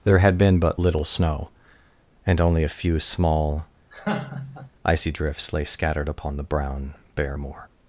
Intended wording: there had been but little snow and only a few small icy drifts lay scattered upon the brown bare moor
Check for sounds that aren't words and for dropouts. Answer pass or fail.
fail